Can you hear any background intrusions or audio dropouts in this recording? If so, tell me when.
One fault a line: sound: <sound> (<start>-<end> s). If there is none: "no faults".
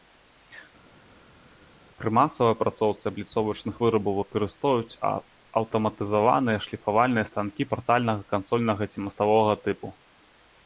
no faults